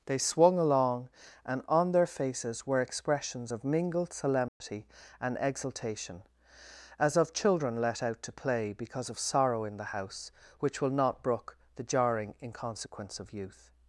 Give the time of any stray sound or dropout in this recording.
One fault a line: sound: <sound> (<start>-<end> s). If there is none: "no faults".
sound: dropout (4.5-4.6 s)